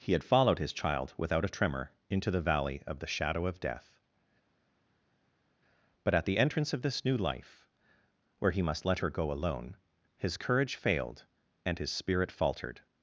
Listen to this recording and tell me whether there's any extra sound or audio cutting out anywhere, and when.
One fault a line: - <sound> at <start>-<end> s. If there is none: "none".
none